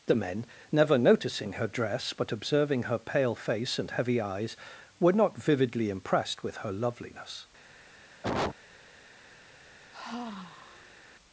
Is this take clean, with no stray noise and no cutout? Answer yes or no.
no